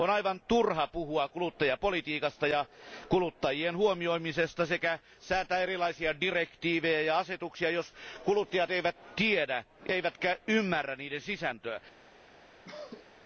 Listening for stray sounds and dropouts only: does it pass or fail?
fail